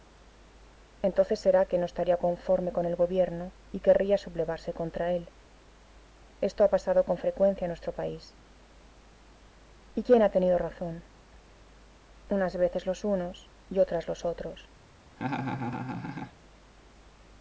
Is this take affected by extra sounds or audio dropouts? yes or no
yes